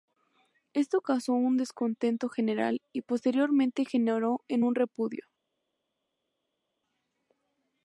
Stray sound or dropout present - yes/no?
no